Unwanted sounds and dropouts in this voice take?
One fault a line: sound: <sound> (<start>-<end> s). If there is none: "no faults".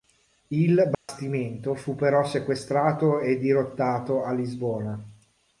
sound: dropout (0.9-1.1 s)